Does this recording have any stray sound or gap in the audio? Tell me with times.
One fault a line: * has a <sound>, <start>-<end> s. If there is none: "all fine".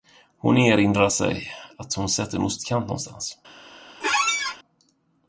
* has a squeak, 4.0-4.6 s